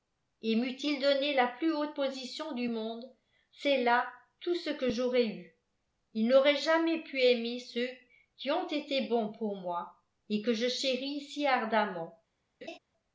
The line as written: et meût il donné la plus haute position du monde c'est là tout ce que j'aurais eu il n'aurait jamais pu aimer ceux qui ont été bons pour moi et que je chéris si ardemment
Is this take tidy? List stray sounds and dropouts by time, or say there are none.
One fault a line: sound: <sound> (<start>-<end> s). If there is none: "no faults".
sound: laugh (12.6-12.8 s)